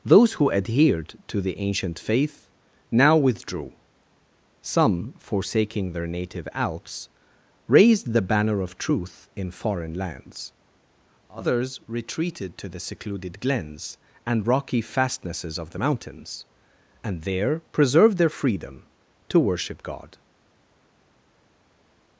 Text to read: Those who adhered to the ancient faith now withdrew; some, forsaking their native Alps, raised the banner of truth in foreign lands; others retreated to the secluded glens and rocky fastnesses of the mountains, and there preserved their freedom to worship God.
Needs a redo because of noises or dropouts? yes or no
no